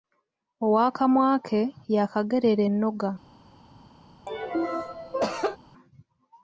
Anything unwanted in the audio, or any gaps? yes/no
yes